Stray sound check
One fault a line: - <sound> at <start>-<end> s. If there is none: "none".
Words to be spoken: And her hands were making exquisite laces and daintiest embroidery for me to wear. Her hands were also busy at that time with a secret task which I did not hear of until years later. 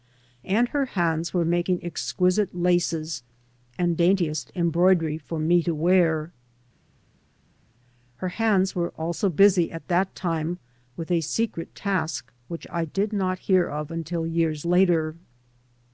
none